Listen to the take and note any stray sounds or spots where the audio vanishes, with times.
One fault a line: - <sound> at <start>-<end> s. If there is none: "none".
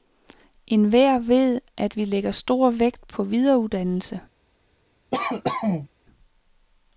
- cough at 5.1-5.9 s